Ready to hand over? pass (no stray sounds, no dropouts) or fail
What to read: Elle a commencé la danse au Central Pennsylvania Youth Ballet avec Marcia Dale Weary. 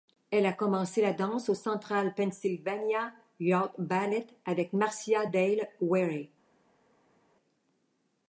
pass